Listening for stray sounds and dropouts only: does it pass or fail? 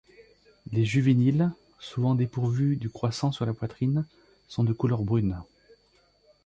pass